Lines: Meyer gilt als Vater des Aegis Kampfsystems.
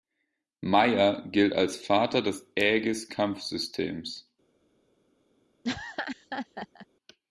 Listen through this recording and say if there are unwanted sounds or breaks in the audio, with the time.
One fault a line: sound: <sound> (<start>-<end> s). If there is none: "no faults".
sound: laugh (5.6-6.9 s)